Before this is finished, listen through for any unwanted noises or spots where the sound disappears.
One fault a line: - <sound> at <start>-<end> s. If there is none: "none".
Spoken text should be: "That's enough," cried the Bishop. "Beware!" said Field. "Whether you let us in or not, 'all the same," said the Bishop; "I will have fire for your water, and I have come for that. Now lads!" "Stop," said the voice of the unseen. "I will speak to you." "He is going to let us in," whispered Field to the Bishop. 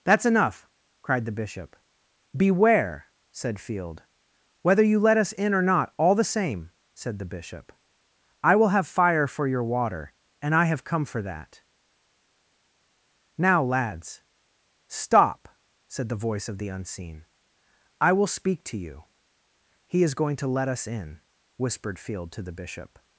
none